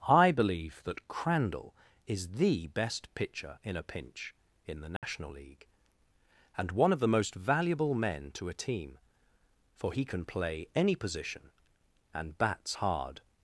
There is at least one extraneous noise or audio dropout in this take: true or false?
true